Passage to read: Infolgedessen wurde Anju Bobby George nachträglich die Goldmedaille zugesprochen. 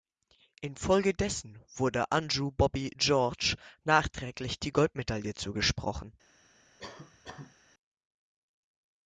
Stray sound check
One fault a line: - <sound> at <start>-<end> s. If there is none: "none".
- cough at 6.8-7.6 s